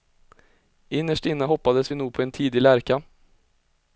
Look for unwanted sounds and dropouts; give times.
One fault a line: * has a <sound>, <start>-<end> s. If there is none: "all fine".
all fine